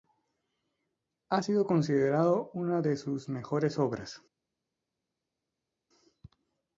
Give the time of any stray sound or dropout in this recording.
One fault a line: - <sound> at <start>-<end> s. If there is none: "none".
none